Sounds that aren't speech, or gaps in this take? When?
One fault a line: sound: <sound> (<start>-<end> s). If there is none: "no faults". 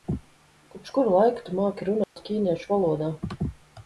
sound: dropout (2.0-2.2 s)